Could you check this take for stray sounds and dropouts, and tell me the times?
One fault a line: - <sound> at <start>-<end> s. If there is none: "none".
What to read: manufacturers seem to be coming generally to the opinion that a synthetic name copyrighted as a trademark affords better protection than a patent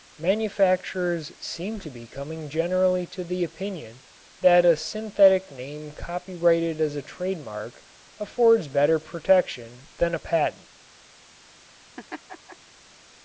- laugh at 12.0-12.6 s